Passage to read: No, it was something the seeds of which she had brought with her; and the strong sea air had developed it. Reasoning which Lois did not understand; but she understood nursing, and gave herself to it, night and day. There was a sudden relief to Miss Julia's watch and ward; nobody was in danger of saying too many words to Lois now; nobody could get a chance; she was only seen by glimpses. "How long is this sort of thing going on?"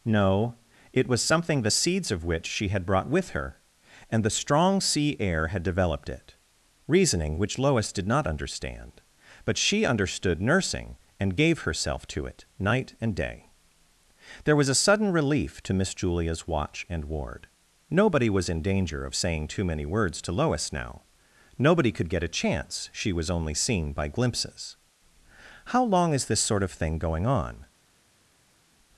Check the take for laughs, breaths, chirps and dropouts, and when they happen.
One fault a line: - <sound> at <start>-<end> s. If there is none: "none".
none